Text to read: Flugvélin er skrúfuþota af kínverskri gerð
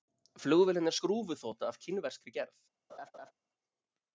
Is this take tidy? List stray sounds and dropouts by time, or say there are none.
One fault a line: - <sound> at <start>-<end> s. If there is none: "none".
- laugh at 2.9-3.3 s